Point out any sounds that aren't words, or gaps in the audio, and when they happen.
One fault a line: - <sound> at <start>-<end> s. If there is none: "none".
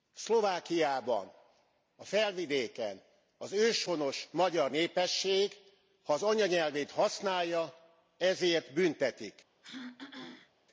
- throat clearing at 9.6-10.5 s